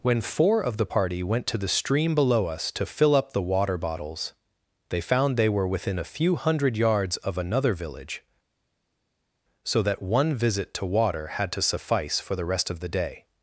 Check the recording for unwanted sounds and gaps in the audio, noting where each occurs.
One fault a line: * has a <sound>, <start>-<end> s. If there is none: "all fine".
all fine